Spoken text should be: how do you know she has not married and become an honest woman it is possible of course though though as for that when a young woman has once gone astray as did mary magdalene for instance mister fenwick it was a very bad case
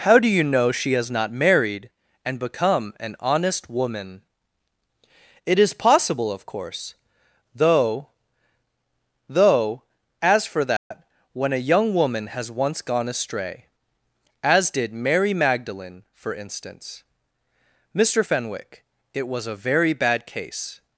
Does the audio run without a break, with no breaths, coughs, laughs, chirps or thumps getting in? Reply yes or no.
no